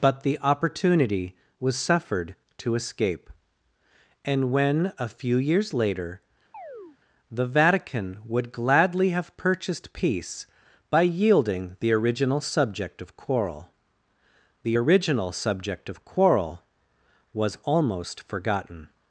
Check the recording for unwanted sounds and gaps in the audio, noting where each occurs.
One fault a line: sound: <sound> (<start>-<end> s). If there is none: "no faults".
sound: chirp (6.5-7.0 s)